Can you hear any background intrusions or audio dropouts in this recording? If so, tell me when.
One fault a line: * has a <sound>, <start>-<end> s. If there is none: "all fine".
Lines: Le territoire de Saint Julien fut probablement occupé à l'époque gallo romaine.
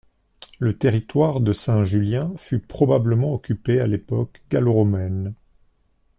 all fine